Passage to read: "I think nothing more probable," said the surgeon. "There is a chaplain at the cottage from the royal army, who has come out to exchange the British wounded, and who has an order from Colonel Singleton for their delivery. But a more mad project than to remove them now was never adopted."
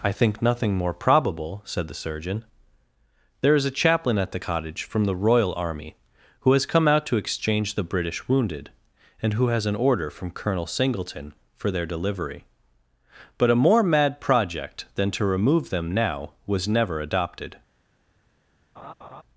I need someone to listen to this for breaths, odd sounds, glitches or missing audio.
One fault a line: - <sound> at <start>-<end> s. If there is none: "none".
- laugh at 18.8-19.2 s